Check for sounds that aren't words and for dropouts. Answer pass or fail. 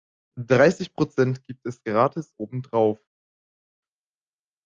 pass